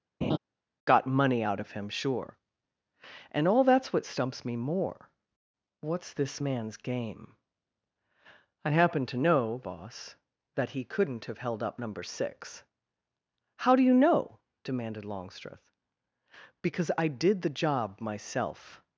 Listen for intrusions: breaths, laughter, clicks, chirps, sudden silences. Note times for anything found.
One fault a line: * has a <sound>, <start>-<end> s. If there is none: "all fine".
* has a laugh, 0.2-0.4 s